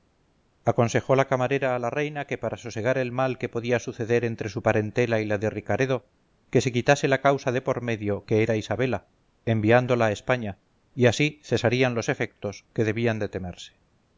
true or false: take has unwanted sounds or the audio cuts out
false